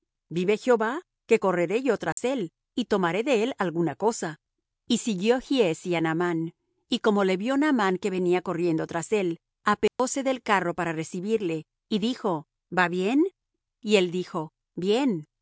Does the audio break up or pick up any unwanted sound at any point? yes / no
yes